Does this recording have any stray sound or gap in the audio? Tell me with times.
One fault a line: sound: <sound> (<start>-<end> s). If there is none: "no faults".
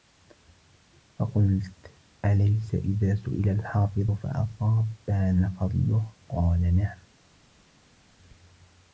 no faults